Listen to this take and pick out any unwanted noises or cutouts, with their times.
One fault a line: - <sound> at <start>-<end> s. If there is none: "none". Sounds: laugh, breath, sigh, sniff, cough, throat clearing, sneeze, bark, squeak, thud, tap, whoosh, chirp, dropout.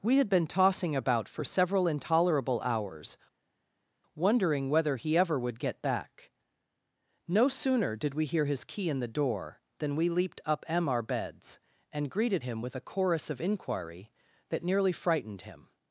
none